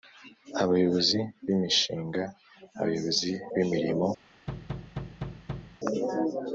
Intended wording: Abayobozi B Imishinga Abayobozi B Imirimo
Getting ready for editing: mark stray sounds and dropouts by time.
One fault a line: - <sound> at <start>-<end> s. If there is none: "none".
- thud at 4.5-5.8 s